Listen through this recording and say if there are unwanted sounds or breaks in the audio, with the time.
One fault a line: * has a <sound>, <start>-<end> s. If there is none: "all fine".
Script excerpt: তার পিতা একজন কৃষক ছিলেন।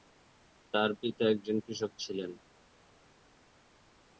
all fine